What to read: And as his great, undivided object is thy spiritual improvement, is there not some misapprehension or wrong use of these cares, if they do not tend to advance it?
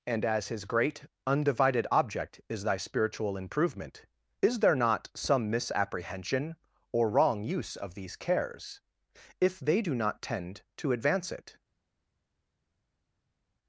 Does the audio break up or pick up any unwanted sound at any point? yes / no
no